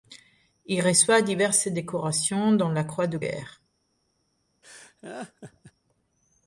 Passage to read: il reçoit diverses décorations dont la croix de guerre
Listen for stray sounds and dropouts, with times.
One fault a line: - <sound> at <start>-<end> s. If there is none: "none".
- laugh at 4.6-5.7 s